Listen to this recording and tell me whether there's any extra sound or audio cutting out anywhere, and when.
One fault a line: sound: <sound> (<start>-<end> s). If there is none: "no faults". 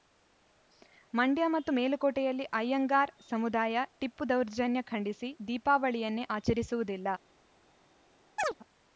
sound: chirp (8.4-8.5 s)